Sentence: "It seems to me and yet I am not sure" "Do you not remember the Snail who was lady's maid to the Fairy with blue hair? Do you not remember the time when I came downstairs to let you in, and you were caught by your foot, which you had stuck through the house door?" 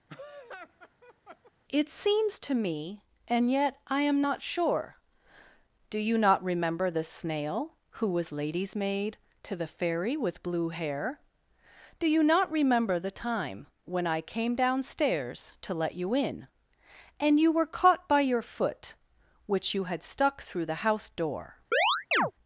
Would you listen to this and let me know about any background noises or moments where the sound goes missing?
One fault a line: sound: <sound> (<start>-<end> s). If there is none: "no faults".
sound: laugh (0.1-1.5 s)
sound: chirp (21.7-22.3 s)